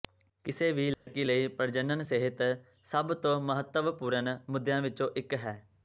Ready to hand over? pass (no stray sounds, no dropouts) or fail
fail